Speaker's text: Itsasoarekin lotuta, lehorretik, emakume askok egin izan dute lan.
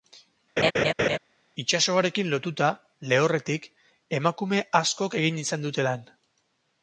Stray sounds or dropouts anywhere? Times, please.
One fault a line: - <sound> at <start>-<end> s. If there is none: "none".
- laugh at 0.6-1.2 s